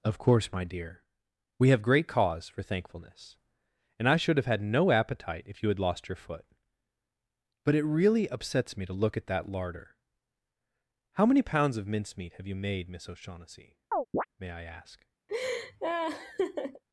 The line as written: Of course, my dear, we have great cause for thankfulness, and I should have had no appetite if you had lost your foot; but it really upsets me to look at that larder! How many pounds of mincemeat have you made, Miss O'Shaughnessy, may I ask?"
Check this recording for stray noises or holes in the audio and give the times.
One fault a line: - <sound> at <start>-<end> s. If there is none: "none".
- chirp at 13.9-14.3 s
- laugh at 15.3-16.8 s